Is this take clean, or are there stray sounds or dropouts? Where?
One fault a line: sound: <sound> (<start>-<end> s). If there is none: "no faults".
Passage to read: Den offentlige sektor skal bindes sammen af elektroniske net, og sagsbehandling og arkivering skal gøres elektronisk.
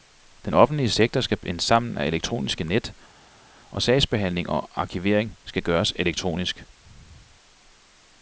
no faults